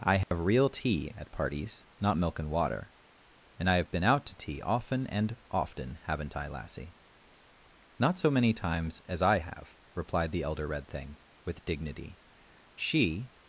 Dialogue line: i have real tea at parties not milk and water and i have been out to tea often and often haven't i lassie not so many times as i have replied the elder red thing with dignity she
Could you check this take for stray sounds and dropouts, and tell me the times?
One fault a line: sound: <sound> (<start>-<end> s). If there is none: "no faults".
sound: dropout (0.2-0.3 s)